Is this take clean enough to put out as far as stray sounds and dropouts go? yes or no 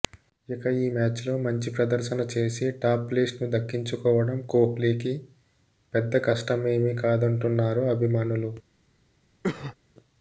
no